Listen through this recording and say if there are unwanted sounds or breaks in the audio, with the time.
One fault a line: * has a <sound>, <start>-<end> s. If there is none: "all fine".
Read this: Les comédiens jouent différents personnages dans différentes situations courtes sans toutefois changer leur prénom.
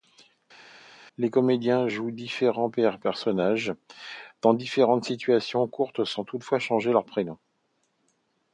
all fine